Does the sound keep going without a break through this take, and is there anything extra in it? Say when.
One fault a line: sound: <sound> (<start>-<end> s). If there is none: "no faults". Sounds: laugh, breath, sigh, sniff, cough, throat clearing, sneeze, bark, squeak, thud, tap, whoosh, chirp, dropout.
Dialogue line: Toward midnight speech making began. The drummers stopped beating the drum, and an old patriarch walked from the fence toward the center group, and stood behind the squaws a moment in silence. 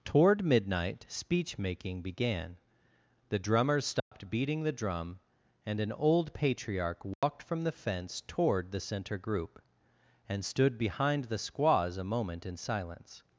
sound: dropout (4.0-4.1 s)
sound: dropout (7.1-7.2 s)